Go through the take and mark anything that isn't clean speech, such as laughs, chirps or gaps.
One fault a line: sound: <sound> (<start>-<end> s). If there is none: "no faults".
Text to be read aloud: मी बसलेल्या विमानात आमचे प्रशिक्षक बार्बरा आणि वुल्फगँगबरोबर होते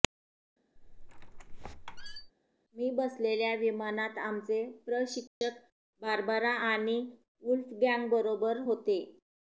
sound: squeak (0.8-2.3 s)
sound: dropout (5.3-5.4 s)